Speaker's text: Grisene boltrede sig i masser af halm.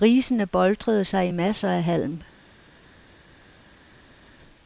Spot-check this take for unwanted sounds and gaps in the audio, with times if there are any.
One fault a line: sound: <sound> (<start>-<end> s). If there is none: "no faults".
no faults